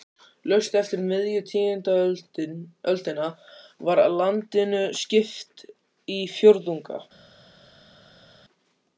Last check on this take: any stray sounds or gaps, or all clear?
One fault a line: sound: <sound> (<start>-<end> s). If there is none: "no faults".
no faults